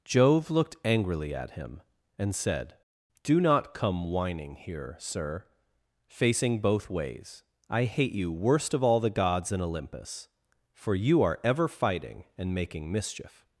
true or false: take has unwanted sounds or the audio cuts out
false